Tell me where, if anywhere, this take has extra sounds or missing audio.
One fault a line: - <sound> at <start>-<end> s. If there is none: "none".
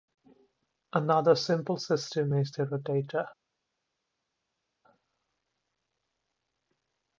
none